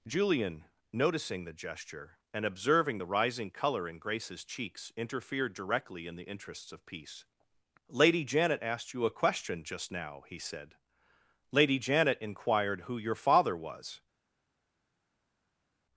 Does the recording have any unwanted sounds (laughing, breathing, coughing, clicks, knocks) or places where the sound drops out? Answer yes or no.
no